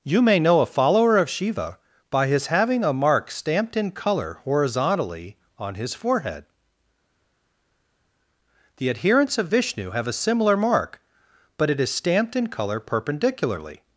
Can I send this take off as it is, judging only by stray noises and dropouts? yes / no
yes